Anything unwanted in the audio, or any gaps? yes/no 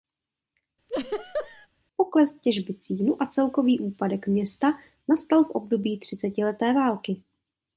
yes